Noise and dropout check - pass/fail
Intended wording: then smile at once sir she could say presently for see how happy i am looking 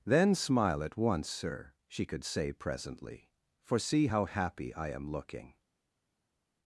pass